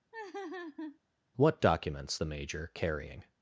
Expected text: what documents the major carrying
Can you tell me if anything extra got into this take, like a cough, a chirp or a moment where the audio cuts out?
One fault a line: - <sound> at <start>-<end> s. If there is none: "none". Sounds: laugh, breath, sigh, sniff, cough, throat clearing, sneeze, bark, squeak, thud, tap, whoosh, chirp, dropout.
- laugh at 0.1-1.0 s